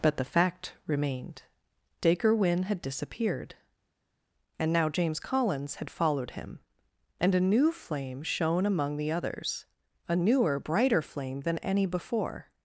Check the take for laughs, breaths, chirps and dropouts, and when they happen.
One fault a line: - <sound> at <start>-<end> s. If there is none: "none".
none